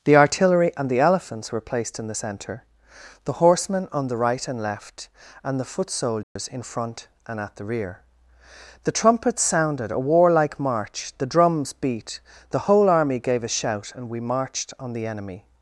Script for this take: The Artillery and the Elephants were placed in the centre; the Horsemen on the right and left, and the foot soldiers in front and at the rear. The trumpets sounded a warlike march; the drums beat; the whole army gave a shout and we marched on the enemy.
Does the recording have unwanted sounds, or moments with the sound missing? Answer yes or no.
yes